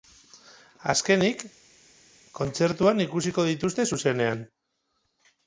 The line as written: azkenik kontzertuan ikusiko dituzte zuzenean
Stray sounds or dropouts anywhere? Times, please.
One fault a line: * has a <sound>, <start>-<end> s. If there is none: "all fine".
all fine